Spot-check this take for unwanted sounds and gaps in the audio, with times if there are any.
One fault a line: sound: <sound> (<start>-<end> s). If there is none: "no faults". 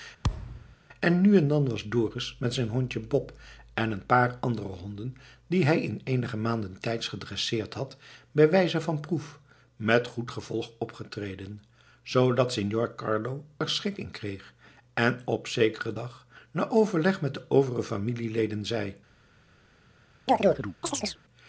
sound: thud (0.2-0.8 s)
sound: chirp (20.3-21.2 s)